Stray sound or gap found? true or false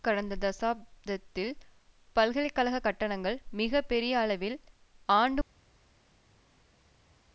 false